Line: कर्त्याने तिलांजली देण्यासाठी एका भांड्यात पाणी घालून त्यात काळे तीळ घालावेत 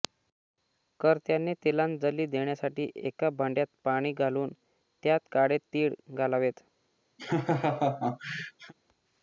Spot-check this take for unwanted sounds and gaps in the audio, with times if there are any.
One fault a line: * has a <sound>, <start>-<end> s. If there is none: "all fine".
* has a laugh, 7.2-8.7 s